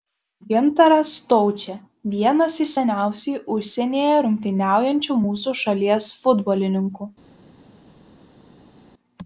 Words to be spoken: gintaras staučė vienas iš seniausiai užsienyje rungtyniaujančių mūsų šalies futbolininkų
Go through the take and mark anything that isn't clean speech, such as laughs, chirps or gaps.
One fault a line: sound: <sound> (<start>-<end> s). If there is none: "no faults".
no faults